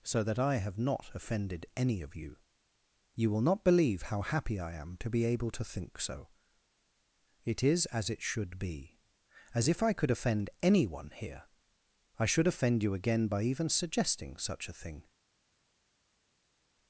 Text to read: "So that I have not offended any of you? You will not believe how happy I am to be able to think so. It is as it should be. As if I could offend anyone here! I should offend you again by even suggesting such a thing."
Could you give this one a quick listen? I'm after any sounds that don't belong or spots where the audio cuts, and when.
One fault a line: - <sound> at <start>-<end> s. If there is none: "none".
none